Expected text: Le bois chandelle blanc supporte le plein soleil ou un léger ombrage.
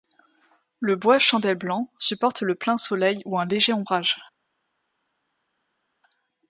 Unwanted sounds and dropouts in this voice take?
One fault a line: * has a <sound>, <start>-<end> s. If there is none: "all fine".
all fine